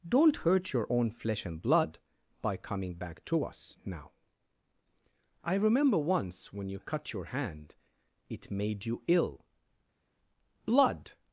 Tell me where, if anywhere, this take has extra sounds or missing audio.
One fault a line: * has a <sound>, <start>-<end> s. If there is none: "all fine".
all fine